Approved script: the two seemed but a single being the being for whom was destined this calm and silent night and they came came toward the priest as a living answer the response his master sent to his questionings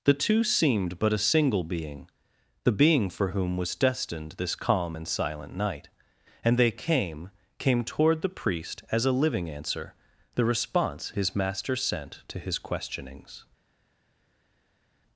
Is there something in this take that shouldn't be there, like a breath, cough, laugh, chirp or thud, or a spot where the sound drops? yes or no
no